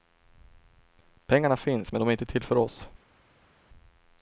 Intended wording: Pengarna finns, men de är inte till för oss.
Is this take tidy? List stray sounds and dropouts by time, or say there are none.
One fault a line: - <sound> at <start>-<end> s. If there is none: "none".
none